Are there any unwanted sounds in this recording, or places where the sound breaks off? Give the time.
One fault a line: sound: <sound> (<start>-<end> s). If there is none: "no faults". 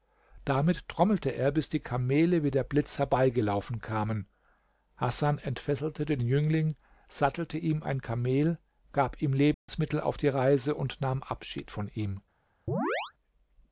sound: dropout (9.5-9.7 s)
sound: chirp (12.7-13.1 s)